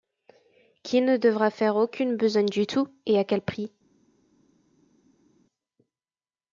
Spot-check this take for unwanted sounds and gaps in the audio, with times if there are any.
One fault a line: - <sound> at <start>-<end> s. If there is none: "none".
none